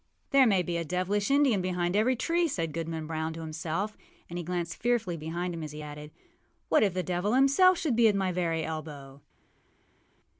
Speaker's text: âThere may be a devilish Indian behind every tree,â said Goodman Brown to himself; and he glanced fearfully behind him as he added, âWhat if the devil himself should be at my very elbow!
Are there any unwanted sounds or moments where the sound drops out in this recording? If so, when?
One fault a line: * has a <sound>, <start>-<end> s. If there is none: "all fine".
all fine